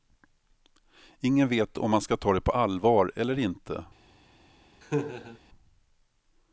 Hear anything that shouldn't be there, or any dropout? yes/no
yes